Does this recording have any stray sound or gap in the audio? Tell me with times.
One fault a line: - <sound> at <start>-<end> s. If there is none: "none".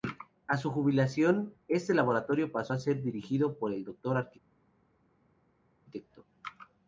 none